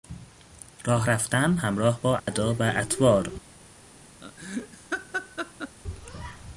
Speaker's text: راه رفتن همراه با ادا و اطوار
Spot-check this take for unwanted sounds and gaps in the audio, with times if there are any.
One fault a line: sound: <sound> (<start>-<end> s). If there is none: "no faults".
sound: dropout (2.2-2.3 s)
sound: laugh (4.2-5.8 s)